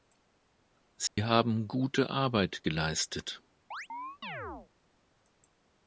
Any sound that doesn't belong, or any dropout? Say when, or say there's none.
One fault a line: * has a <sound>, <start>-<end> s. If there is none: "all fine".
* has a dropout, 1.1-1.2 s
* has a chirp, 3.7-4.7 s